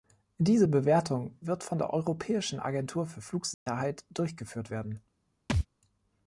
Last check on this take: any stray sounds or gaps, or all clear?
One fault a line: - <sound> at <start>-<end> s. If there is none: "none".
- dropout at 3.5-3.7 s
- thud at 5.5-5.7 s